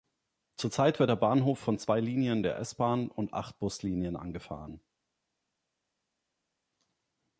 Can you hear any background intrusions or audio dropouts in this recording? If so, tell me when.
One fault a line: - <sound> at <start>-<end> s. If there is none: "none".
none